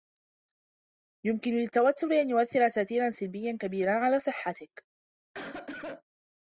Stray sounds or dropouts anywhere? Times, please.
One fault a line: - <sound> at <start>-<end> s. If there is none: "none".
- cough at 5.3-6.0 s